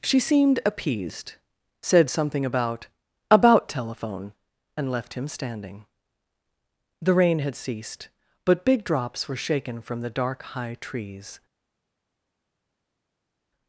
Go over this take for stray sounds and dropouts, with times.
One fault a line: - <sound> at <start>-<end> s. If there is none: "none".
none